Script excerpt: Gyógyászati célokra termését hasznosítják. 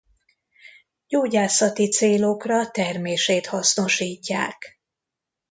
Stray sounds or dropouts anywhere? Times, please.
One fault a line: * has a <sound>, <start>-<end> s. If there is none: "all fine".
all fine